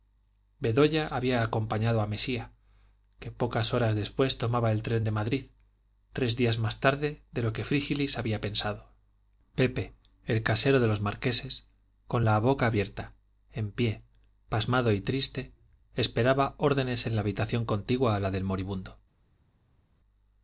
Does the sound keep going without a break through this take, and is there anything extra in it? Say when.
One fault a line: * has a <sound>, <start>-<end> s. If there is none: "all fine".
all fine